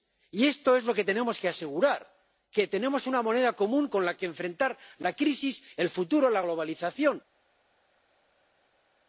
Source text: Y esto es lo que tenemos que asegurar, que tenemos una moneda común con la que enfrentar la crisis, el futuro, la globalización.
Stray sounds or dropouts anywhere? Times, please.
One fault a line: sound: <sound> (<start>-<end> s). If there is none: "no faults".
no faults